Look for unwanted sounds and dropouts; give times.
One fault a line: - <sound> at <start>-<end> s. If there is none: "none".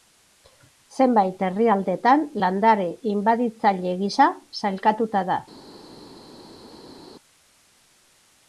none